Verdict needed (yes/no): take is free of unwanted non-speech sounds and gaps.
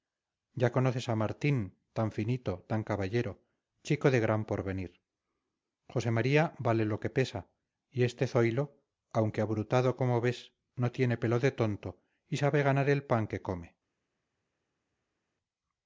yes